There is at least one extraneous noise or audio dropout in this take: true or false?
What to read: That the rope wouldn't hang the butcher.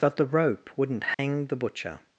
true